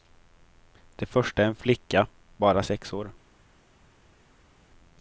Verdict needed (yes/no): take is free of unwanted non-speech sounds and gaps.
yes